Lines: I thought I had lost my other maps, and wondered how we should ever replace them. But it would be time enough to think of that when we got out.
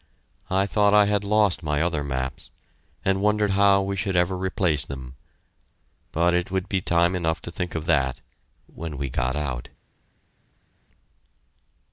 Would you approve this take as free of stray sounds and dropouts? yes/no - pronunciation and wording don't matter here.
yes